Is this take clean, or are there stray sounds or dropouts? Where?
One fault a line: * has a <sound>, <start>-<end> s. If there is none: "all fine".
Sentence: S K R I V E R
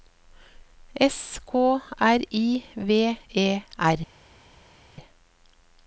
all fine